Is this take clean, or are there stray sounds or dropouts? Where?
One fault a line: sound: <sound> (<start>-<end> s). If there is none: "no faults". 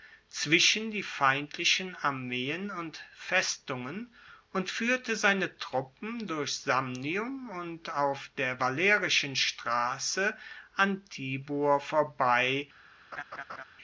sound: laugh (13.1-13.6 s)